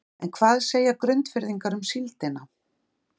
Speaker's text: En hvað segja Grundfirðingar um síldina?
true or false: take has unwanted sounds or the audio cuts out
false